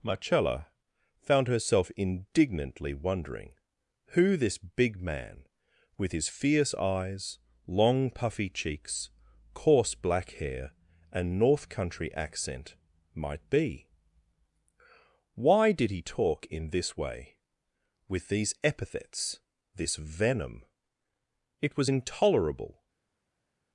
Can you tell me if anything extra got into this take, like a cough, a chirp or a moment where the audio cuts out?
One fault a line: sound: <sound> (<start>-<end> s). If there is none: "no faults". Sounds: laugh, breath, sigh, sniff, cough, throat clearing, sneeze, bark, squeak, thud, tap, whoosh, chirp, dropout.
no faults